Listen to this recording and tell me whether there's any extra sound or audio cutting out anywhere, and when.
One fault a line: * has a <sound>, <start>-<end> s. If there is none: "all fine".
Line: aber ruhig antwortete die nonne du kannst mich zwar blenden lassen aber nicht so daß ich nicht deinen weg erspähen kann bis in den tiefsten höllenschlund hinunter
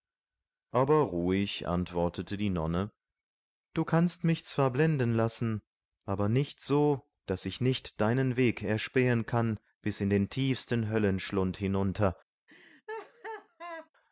* has a laugh, 12.5-13.9 s